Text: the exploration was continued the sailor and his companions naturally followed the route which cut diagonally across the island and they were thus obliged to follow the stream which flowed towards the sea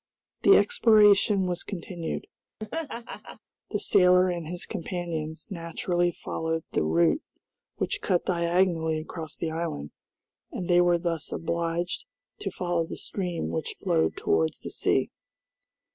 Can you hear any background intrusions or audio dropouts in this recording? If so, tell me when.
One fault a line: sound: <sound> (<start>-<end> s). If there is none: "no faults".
sound: laugh (2.6-3.4 s)